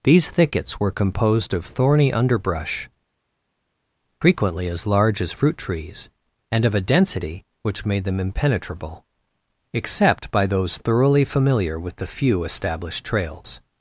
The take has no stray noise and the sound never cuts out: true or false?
true